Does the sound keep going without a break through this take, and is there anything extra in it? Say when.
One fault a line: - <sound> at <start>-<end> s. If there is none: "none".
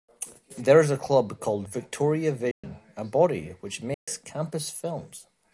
- dropout at 2.5-2.6 s
- dropout at 3.9-4.1 s